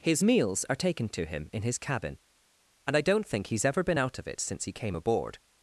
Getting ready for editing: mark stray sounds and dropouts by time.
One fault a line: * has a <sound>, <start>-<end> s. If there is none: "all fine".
all fine